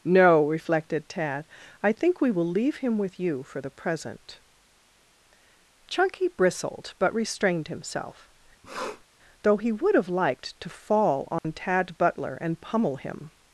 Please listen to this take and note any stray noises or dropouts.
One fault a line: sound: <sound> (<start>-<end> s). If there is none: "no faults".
sound: sniff (8.6-9.0 s)
sound: dropout (11.4-11.4 s)